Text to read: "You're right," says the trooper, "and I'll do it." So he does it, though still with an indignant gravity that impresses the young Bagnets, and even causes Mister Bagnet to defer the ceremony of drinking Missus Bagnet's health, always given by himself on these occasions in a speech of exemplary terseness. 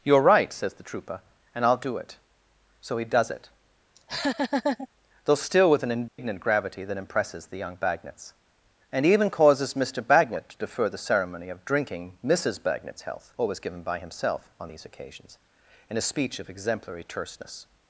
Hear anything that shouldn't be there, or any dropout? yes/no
yes